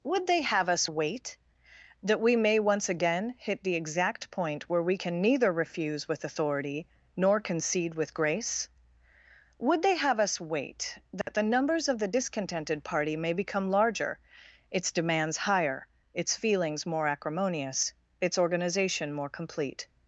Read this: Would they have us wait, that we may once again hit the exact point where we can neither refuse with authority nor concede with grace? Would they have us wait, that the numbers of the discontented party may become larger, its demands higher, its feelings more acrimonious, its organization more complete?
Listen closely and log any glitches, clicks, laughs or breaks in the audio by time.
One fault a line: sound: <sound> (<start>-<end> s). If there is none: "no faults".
sound: dropout (11.2-11.3 s)